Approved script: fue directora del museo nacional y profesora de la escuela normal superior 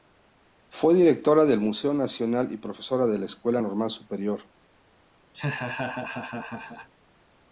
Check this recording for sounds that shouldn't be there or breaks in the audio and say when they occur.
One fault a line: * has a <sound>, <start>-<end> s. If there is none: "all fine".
* has a laugh, 5.3-6.9 s